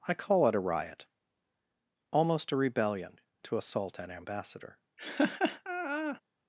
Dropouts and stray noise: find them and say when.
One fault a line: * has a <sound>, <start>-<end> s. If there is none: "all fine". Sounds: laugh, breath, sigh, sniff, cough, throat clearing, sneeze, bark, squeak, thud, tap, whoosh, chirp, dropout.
* has a laugh, 5.0-6.2 s